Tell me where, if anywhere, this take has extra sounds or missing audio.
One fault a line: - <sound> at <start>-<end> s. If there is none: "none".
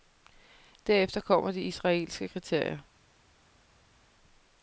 none